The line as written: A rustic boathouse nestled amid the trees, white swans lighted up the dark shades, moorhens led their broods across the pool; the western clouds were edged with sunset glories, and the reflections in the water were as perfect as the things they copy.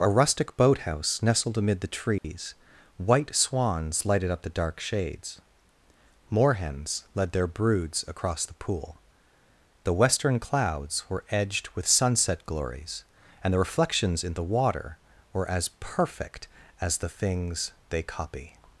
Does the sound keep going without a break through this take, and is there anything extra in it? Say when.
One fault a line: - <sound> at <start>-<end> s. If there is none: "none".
- dropout at 2.2-2.2 s